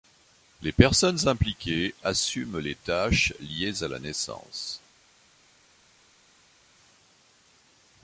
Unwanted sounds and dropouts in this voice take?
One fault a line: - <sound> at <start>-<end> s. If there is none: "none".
none